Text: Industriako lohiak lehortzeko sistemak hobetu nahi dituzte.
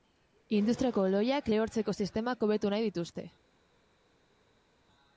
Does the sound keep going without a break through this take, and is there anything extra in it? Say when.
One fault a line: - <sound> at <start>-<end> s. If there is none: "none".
none